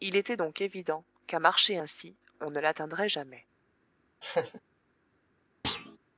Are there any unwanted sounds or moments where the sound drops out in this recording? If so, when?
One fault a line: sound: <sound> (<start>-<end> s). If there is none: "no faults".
sound: laugh (4.2-4.6 s)
sound: thud (5.6-6.0 s)